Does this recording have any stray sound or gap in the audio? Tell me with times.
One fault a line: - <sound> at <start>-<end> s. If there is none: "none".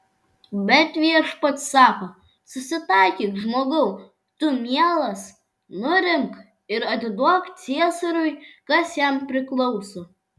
none